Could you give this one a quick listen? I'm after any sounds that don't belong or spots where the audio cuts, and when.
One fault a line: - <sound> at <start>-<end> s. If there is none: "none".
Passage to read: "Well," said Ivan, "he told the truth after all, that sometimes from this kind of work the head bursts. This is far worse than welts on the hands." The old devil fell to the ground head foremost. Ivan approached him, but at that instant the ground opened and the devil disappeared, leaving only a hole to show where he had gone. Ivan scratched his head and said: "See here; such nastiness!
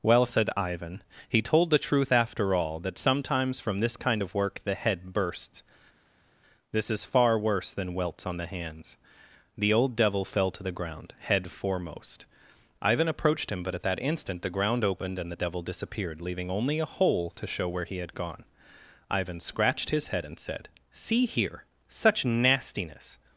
none